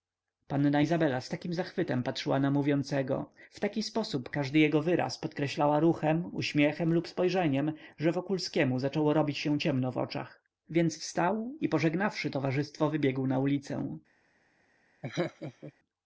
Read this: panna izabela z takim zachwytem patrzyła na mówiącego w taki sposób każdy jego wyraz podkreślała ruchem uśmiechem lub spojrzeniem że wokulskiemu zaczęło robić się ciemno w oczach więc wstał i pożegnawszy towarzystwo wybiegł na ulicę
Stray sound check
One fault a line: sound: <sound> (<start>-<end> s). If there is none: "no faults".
sound: laugh (15.0-15.7 s)